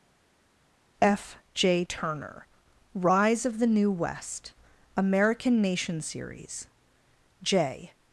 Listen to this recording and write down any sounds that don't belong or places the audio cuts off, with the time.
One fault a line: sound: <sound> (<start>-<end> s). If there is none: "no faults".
no faults